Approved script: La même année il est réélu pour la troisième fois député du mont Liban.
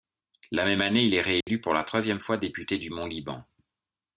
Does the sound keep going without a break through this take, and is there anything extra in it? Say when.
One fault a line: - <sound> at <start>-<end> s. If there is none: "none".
- dropout at 1.4-1.5 s